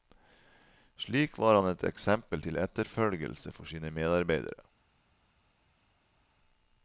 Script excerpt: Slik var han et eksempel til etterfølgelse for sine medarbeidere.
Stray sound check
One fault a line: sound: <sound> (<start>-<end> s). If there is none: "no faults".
no faults